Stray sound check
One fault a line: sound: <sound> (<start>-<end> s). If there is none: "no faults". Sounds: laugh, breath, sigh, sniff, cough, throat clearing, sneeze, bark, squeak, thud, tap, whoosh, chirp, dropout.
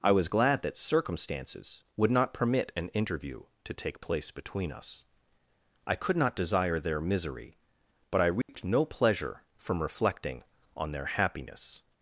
sound: dropout (8.4-8.5 s)